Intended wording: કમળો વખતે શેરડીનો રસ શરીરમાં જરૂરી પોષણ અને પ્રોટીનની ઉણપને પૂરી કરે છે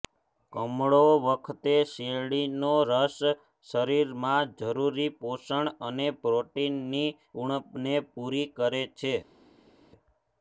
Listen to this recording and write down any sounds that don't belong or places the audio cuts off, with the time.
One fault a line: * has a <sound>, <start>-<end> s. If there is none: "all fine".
all fine